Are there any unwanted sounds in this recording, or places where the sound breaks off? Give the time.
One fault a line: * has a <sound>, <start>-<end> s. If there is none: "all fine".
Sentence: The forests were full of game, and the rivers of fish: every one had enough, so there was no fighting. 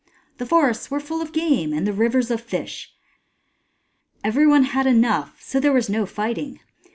all fine